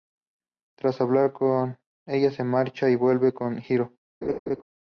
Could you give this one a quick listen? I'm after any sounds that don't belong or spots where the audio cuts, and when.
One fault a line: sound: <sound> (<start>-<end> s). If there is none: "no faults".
sound: laugh (4.2-4.6 s)